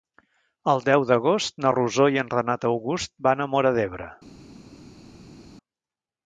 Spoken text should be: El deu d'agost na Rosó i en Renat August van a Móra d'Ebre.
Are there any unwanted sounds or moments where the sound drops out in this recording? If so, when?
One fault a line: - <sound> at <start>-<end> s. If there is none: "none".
none